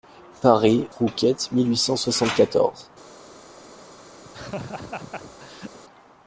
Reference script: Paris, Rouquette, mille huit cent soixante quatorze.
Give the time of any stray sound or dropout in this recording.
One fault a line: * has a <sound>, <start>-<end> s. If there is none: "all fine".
* has a laugh, 4.2-5.8 s